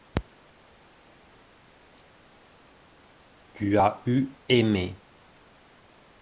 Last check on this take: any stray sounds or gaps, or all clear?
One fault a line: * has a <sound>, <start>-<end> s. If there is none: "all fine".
all fine